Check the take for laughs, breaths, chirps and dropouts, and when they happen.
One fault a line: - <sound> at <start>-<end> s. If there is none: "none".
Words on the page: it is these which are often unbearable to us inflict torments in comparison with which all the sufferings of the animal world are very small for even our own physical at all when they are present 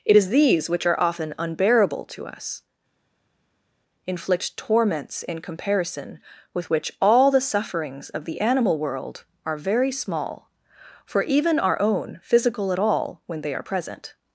none